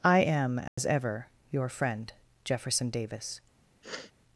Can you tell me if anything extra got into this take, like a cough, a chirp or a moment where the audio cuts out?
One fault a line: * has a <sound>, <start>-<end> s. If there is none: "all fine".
* has a dropout, 0.7-0.8 s
* has a sniff, 3.8-4.1 s